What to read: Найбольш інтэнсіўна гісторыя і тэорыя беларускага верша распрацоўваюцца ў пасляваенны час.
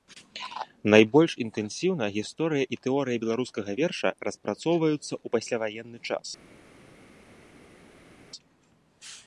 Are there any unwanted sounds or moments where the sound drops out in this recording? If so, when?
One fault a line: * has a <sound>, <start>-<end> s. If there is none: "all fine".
all fine